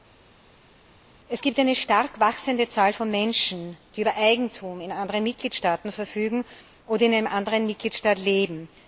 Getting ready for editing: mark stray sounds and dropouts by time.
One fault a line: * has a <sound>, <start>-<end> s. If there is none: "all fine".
all fine